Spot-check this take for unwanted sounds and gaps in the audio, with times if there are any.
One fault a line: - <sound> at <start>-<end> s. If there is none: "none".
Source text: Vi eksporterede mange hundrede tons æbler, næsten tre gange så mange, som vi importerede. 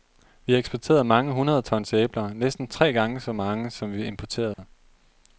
- dropout at 4.5-4.6 s